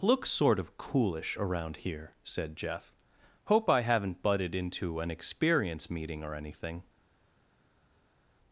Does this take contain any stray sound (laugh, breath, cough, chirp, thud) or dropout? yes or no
no